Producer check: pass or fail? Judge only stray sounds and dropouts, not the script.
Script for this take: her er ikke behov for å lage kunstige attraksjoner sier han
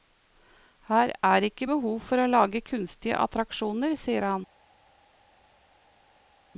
pass